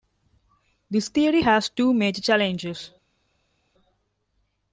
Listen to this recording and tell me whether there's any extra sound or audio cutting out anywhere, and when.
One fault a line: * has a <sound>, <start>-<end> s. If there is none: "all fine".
all fine